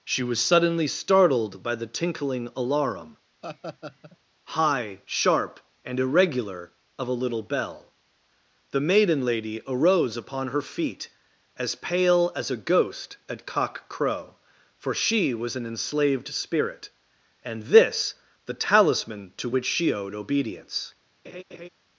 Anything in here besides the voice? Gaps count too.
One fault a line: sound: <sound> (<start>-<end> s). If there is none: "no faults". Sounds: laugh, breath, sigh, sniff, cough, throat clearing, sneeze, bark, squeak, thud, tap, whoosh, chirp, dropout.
sound: laugh (3.4-4.2 s)
sound: laugh (21.2-21.7 s)